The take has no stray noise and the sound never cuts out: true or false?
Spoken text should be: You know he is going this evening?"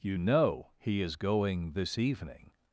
true